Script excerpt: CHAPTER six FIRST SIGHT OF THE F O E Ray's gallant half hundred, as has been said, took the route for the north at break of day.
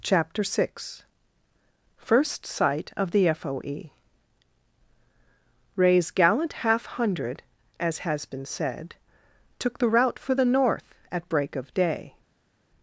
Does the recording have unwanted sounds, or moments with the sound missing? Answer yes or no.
no